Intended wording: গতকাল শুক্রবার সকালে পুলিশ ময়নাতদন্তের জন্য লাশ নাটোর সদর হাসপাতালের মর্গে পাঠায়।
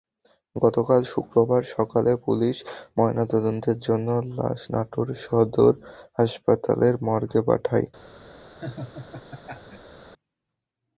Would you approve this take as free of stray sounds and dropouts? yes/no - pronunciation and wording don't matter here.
no